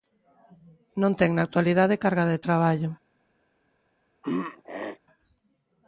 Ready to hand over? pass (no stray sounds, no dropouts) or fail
fail